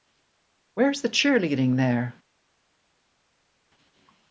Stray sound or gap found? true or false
false